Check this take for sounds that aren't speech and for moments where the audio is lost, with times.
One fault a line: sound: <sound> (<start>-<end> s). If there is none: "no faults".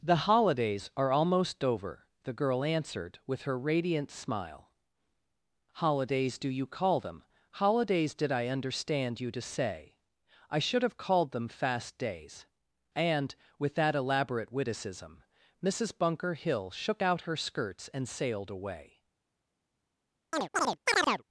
sound: chirp (20.3-21.2 s)